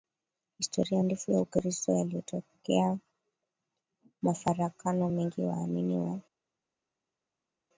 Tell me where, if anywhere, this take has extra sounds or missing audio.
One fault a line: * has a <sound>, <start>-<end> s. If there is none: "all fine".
all fine